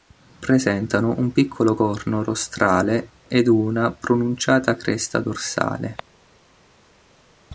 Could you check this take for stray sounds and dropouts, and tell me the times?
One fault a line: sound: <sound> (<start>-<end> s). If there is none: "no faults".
no faults